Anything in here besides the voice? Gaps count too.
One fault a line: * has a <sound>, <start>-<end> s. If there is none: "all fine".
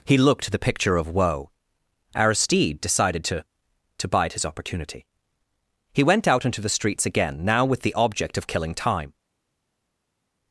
all fine